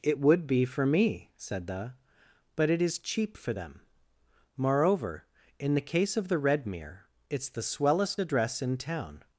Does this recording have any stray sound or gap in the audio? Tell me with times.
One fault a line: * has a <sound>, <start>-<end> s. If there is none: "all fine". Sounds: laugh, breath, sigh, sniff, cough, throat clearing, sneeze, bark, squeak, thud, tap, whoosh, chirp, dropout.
all fine